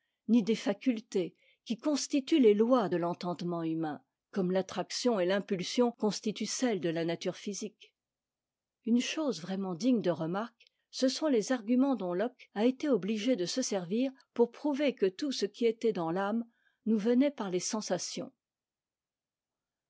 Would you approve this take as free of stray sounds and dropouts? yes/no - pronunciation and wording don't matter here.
yes